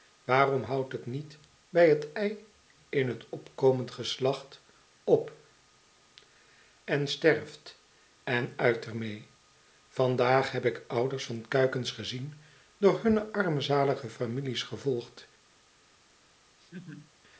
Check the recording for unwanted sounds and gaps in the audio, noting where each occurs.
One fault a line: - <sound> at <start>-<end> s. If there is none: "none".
- laugh at 16.6-17.1 s